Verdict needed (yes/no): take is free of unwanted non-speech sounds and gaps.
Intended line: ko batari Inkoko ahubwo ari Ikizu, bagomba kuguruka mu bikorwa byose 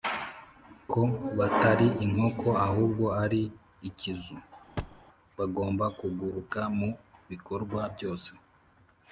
no